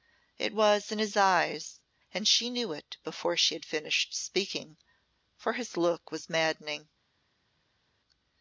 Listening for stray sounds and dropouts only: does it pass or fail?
pass